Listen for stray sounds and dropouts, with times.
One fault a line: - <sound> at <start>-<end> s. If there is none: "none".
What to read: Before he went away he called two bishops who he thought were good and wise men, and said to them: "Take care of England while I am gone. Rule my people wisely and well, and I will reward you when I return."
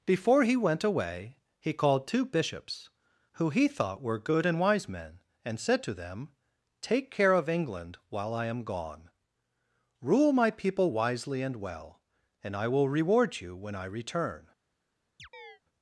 - chirp at 15.2-15.6 s